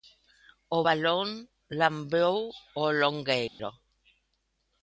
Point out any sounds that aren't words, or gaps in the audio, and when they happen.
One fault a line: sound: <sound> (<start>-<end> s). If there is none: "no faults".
sound: dropout (3.5-3.6 s)